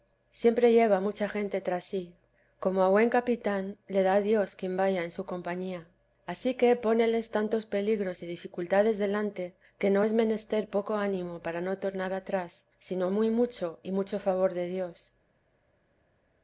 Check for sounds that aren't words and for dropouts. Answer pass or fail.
pass